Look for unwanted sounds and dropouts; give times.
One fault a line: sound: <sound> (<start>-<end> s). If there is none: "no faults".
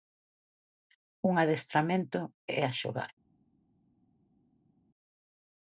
no faults